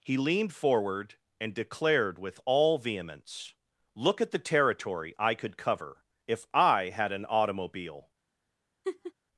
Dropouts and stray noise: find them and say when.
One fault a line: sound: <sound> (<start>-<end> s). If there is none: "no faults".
sound: laugh (8.8-9.1 s)